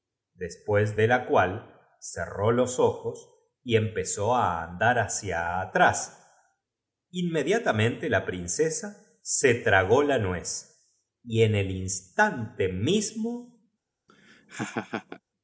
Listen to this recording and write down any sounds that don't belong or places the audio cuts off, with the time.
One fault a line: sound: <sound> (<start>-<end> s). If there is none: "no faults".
sound: laugh (14.1-15.2 s)